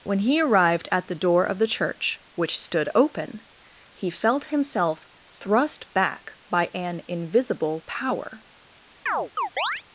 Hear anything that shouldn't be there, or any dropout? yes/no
yes